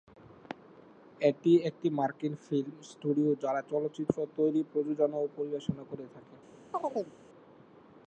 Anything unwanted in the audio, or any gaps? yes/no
yes